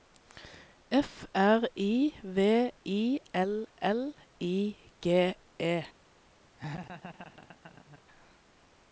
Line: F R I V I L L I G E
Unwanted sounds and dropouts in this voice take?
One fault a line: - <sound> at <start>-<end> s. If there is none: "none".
- laugh at 6.6-8.0 s